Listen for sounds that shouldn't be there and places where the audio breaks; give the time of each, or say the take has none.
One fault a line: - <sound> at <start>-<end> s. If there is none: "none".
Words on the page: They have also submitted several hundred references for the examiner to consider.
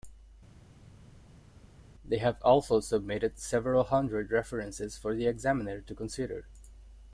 none